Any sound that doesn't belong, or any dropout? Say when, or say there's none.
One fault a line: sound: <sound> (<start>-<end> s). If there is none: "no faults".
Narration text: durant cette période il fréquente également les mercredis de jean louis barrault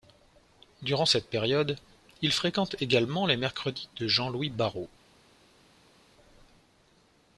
no faults